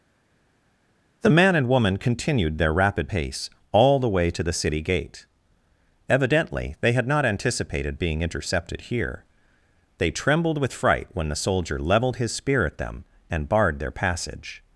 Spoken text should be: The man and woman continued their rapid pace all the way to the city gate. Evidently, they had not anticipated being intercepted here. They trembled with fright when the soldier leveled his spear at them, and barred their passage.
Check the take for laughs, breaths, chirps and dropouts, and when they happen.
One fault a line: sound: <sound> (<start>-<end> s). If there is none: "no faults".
no faults